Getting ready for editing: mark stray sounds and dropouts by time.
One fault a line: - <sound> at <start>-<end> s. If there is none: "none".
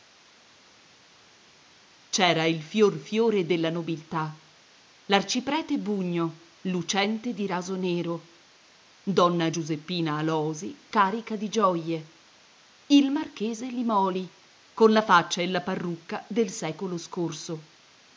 none